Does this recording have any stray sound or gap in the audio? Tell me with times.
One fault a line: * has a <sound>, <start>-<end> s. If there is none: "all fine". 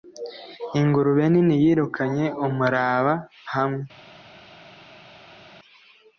all fine